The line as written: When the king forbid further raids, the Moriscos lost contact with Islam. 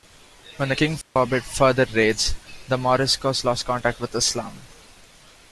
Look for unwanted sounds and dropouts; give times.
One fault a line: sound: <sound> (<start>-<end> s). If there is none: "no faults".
sound: dropout (1.0-1.2 s)